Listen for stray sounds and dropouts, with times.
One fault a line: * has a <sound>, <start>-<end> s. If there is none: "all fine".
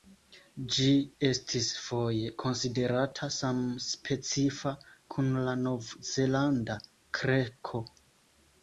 all fine